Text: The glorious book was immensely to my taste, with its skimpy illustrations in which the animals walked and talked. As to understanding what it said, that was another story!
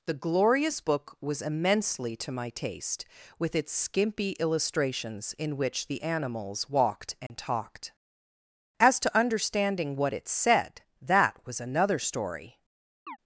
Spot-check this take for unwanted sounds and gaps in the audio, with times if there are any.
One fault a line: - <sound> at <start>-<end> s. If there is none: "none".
- dropout at 7.3-7.3 s
- chirp at 13.1-13.2 s